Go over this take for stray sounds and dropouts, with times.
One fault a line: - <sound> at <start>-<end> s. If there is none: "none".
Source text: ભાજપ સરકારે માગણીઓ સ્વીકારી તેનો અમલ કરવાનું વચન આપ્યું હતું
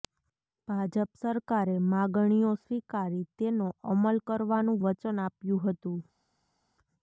none